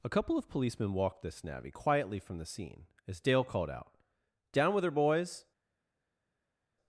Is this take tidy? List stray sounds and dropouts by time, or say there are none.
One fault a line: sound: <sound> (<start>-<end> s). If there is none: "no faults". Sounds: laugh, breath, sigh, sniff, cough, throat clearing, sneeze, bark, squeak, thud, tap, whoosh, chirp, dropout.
no faults